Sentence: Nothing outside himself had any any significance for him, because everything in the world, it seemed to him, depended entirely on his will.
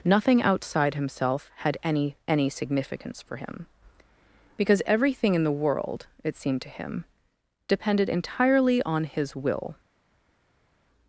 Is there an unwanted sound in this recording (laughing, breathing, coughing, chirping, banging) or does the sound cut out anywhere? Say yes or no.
no